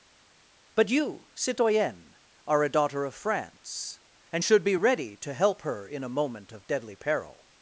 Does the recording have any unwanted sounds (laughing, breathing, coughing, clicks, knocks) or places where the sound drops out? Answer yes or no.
no